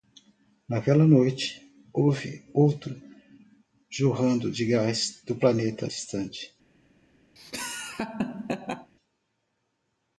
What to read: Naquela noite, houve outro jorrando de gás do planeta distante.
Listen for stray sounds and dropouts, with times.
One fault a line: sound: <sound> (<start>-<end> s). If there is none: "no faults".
sound: laugh (7.4-8.9 s)